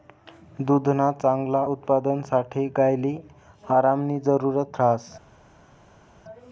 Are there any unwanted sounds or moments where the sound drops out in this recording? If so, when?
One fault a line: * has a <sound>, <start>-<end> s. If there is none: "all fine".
all fine